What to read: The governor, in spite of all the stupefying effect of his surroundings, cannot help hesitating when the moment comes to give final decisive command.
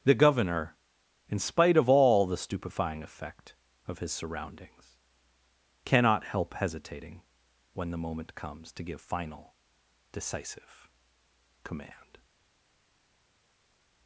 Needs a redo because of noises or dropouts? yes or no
no